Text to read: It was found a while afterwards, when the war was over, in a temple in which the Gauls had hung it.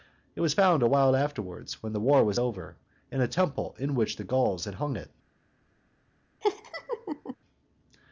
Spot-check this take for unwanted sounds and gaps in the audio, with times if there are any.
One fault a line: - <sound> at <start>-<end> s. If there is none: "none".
- laugh at 6.4-7.4 s